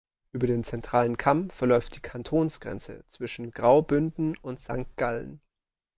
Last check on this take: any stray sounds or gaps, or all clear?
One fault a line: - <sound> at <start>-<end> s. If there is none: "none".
none